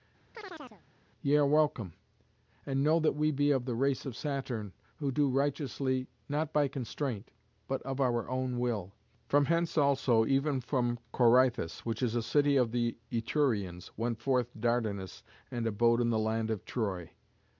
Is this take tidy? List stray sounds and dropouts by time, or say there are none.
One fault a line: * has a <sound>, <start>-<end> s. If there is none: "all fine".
* has a chirp, 0.3-0.8 s